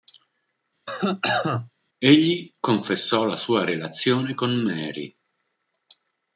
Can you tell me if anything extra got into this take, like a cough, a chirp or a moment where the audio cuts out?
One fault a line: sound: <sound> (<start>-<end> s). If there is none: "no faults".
sound: cough (0.9-1.7 s)